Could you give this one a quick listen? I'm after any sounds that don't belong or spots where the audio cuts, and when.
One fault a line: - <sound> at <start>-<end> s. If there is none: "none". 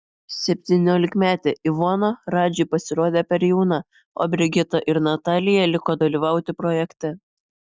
none